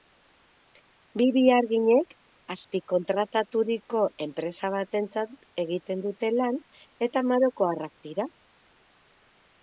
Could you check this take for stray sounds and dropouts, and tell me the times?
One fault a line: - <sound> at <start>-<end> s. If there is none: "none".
none